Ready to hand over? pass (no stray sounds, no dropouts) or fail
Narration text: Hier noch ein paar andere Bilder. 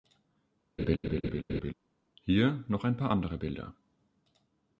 fail